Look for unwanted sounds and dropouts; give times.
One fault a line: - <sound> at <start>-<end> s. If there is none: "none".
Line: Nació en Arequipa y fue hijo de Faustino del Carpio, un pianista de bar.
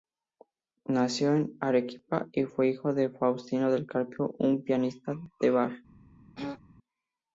- throat clearing at 6.4-6.6 s